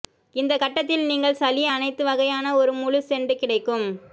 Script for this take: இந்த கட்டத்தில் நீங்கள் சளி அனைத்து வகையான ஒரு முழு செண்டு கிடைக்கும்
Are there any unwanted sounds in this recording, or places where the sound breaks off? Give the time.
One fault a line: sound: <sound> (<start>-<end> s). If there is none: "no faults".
no faults